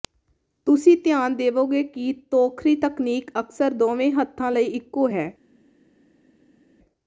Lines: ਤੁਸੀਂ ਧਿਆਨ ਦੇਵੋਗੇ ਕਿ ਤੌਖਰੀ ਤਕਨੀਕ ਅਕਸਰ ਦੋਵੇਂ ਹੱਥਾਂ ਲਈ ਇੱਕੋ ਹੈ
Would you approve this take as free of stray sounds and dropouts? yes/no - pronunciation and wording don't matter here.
yes